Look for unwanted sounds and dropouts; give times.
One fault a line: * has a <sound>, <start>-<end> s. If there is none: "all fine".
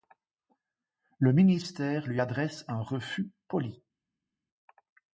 all fine